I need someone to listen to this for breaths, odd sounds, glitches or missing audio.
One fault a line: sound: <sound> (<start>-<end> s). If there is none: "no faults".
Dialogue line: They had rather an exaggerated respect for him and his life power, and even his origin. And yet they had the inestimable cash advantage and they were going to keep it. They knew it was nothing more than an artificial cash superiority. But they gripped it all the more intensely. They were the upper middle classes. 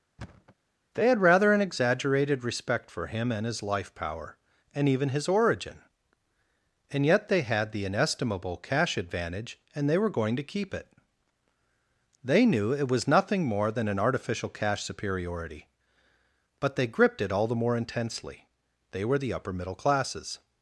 sound: thud (0.2-0.6 s)